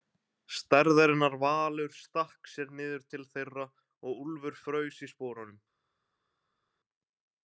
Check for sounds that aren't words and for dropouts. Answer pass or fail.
pass